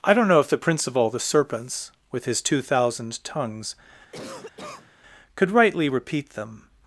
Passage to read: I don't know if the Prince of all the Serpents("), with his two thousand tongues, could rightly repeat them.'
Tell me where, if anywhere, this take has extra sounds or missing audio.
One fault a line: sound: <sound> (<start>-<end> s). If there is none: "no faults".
sound: cough (4.1-4.9 s)